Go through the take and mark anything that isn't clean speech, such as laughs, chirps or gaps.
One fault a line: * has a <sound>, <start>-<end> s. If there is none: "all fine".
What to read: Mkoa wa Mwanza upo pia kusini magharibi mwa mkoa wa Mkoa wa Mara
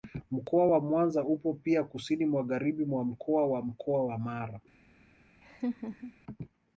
* has a laugh, 5.4-6.1 s